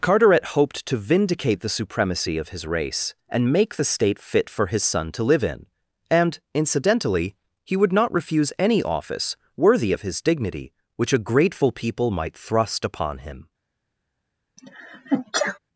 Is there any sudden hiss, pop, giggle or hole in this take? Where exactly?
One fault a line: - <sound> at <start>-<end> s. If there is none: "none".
- sneeze at 14.6-15.6 s